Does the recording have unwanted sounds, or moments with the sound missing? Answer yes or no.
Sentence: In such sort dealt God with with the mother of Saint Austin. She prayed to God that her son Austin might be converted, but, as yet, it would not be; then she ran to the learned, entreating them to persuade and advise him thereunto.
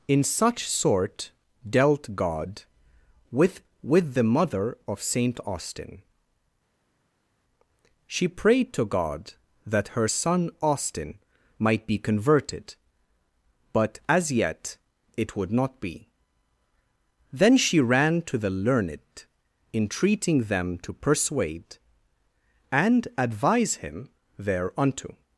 no